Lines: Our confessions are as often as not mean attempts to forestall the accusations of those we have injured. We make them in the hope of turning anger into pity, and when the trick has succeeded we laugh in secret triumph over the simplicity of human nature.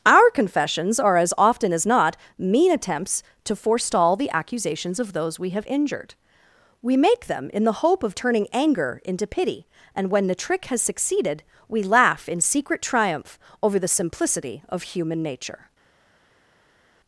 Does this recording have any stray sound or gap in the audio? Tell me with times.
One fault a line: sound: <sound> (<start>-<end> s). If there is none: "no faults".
no faults